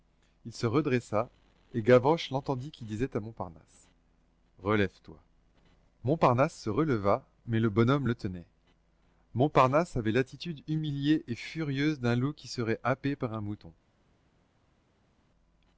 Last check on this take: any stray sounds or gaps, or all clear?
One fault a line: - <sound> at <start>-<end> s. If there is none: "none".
none